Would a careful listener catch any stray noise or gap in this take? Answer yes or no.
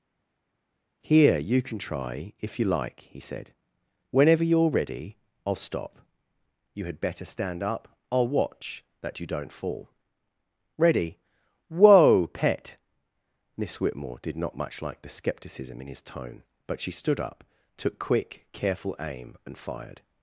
no